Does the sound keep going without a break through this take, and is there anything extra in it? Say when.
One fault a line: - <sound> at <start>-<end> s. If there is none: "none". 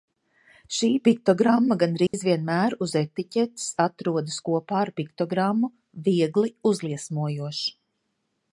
- dropout at 2.1-2.1 s